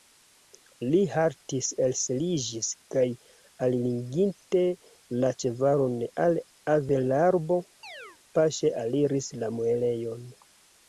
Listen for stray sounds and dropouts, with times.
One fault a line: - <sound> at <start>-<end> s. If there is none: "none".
- chirp at 7.8-8.2 s